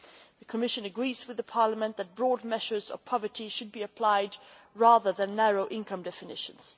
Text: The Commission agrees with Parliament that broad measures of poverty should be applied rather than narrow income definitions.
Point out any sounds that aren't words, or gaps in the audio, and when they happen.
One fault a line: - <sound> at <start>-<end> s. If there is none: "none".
none